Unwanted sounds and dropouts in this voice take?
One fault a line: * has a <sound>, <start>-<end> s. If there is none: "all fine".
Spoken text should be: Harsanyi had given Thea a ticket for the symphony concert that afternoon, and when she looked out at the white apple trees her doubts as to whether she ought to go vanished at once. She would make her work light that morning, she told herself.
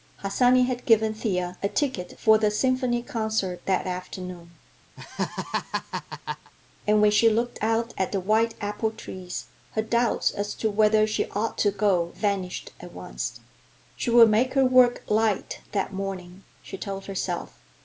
* has a laugh, 5.0-6.5 s